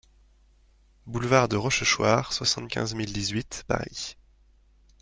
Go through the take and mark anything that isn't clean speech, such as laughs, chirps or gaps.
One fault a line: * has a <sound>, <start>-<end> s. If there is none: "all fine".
all fine